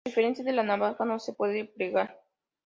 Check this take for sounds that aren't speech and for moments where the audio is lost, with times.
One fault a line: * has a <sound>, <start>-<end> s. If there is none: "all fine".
all fine